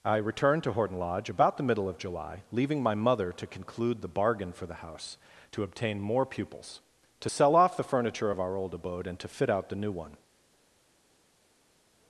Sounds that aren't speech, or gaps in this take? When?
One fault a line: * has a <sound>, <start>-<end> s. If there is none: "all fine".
all fine